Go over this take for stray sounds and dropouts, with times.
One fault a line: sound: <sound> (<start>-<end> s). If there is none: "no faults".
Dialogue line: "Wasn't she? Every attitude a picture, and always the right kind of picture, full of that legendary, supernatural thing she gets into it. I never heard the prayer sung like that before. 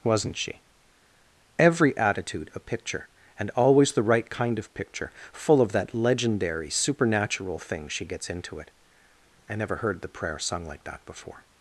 no faults